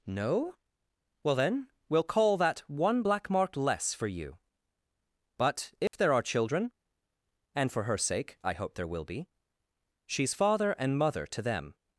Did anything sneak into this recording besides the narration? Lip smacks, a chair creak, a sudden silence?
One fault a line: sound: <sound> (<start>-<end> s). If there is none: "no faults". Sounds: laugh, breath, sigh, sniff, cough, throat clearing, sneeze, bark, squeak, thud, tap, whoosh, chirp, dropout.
sound: dropout (5.9-5.9 s)